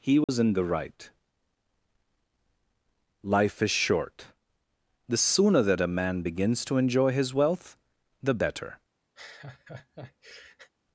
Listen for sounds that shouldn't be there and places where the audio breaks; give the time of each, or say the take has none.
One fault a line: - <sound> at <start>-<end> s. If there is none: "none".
- dropout at 0.2-0.3 s
- laugh at 9.2-10.7 s